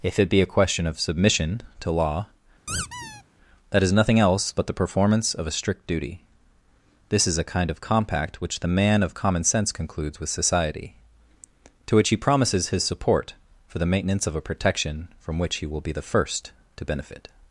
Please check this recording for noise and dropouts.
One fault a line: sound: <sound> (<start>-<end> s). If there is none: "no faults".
sound: squeak (2.7-3.2 s)